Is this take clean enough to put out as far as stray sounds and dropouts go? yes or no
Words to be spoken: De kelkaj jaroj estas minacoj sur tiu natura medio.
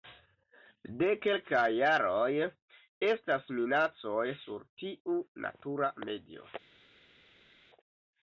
yes